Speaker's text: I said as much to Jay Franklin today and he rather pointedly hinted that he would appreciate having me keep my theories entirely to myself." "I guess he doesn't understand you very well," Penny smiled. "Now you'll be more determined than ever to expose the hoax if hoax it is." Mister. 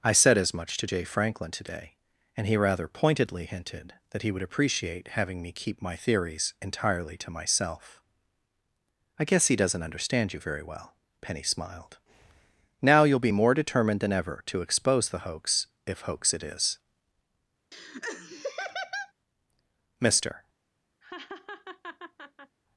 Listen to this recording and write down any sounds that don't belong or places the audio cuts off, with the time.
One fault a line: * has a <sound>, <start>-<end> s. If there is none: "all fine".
* has a laugh, 17.7-19.1 s
* has a laugh, 21.0-22.6 s